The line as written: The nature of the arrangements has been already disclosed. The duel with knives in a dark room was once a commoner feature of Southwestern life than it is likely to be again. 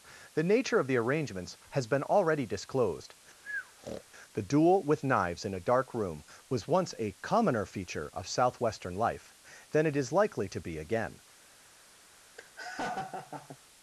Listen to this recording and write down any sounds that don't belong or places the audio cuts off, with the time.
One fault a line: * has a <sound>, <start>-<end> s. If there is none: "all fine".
* has a breath, 3.4-4.0 s
* has a laugh, 12.4-13.6 s